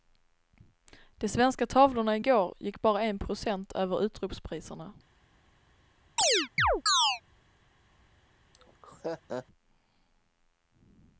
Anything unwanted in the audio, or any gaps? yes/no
yes